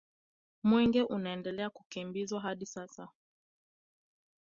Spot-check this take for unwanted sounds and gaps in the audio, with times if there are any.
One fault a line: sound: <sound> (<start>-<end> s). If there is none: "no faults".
no faults